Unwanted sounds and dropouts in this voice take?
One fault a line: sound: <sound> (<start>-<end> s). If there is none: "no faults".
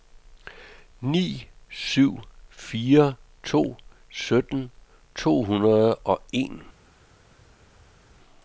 no faults